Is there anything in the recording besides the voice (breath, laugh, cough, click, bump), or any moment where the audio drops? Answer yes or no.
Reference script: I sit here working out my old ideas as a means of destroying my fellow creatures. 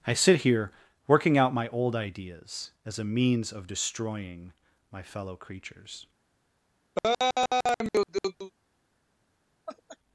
yes